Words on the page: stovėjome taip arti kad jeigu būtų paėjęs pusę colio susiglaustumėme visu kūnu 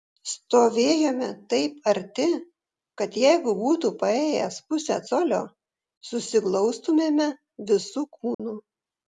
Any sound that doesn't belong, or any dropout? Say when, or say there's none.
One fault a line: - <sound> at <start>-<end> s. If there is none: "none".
- dropout at 8.3-8.4 s